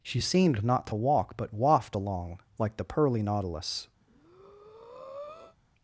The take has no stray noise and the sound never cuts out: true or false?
false